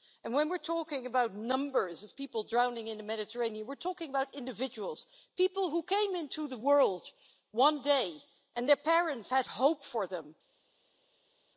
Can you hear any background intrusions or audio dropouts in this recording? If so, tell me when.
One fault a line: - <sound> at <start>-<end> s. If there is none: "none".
none